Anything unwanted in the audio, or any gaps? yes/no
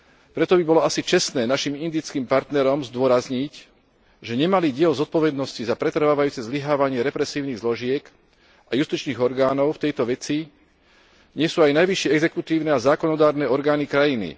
no